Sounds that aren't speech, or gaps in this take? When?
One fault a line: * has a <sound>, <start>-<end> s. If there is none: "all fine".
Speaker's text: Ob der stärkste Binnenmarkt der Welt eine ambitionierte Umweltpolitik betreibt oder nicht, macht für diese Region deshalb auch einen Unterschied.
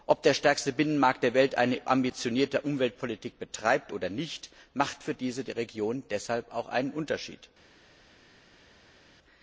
all fine